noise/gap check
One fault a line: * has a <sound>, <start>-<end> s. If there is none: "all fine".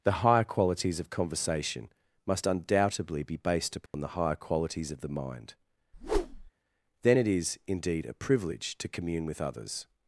* has a dropout, 3.9-3.9 s
* has a whoosh, 5.9-6.5 s